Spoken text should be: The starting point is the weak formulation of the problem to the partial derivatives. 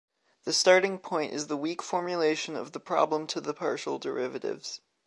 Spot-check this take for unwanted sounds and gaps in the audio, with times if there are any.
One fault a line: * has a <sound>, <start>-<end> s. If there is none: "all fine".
all fine